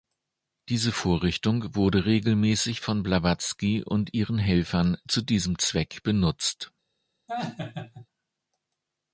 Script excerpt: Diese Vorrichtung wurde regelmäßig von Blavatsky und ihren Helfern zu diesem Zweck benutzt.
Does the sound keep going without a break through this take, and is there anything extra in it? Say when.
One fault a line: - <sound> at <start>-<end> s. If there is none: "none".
- laugh at 7.3-8.1 s